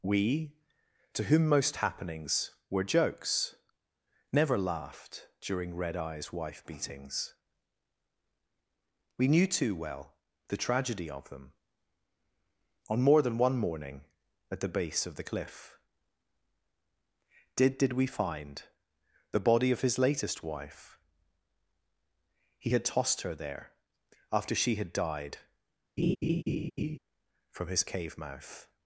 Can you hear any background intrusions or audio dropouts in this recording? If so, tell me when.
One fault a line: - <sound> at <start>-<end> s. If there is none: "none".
- laugh at 26.0-27.0 s